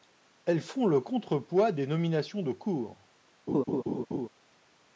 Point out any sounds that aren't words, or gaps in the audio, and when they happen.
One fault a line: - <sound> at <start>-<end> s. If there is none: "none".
- laugh at 3.5-4.3 s